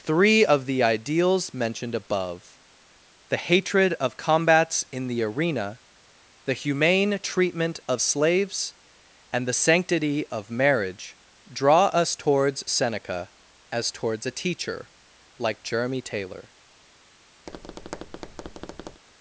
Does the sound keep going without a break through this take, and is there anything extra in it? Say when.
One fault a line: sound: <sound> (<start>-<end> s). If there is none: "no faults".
sound: tap (17.5-19.0 s)